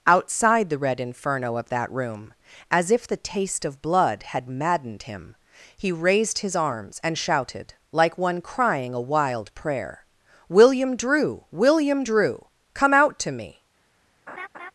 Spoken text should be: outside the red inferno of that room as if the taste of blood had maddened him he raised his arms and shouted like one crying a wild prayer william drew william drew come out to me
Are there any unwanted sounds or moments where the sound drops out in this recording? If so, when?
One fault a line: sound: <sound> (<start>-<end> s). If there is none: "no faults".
sound: laugh (14.3-14.7 s)